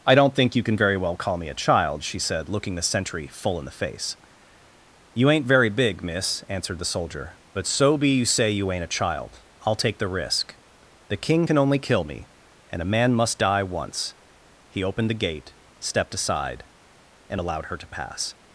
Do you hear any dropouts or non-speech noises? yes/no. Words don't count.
no